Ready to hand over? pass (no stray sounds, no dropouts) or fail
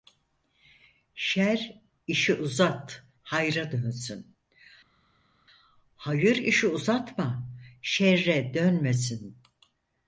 pass